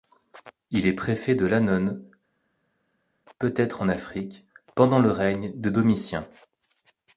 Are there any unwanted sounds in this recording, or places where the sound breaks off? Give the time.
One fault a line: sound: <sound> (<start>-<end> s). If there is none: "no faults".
no faults